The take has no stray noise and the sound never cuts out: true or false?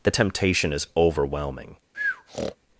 false